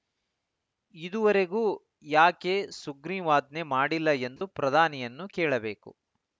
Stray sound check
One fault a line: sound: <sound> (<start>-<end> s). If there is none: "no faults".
sound: dropout (4.4-4.4 s)